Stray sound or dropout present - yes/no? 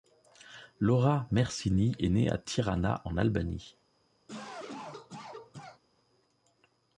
yes